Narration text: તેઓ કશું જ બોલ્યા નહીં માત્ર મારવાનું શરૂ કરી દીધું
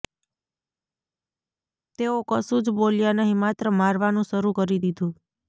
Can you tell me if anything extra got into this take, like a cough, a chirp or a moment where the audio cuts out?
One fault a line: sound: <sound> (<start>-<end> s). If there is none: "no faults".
no faults